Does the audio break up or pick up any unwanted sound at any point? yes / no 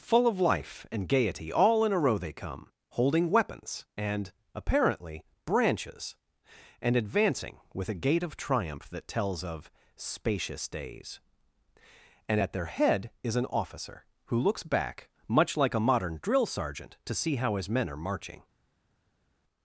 no